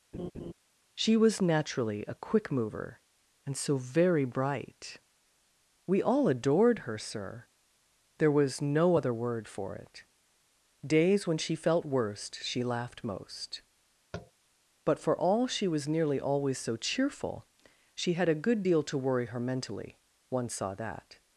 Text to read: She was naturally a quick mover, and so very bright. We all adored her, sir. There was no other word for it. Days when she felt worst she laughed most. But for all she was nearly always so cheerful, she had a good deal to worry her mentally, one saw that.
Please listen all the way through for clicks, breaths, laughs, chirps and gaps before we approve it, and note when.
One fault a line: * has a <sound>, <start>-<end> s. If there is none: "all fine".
* has a laugh, 0.1-0.5 s
* has a tap, 14.1-14.3 s